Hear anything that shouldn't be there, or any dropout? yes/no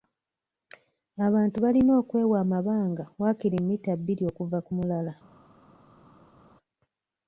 no